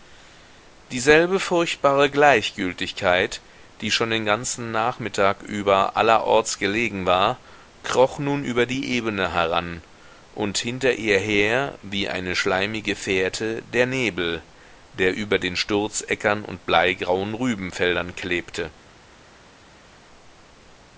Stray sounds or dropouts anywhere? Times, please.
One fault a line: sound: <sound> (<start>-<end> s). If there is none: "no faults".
no faults